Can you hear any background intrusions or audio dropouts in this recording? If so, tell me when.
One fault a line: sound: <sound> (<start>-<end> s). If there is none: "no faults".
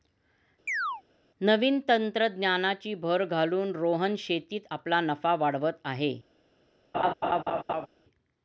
sound: chirp (0.7-1.0 s)
sound: laugh (6.9-7.9 s)